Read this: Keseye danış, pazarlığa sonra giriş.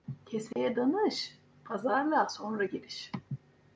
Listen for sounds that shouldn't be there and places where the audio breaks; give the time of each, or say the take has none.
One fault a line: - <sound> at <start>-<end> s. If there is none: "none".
- dropout at 0.5-0.6 s